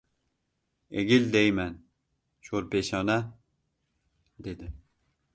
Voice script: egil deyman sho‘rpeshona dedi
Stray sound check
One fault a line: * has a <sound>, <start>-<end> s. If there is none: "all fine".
all fine